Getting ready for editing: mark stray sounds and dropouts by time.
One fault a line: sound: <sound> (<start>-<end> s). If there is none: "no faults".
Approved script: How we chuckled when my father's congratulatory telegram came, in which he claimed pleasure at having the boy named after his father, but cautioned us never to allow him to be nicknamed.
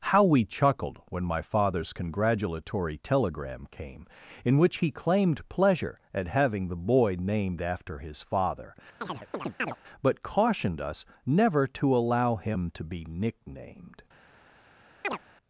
sound: chirp (9.0-9.8 s)
sound: chirp (15.0-15.2 s)